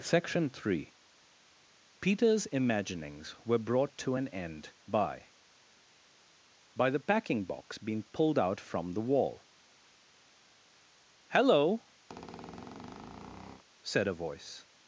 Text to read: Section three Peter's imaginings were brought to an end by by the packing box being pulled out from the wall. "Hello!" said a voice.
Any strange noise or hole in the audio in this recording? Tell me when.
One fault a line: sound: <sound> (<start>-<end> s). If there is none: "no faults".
sound: squeak (12.1-13.6 s)